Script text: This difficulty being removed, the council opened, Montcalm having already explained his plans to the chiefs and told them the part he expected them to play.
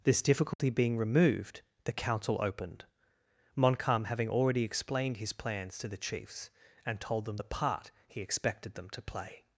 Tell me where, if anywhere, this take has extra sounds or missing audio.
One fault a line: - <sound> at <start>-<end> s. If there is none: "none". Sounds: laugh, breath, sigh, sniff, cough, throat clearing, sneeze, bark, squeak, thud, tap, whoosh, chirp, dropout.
- dropout at 0.5-0.6 s